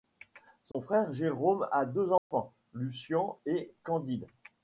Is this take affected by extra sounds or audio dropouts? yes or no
yes